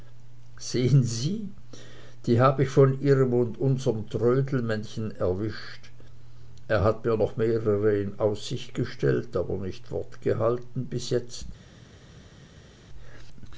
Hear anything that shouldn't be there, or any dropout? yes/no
no